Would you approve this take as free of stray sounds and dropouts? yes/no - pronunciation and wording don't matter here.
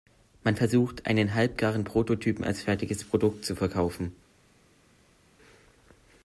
yes